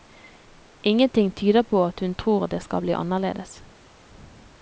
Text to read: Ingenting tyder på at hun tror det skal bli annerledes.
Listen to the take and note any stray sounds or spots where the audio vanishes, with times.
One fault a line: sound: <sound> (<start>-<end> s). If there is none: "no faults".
no faults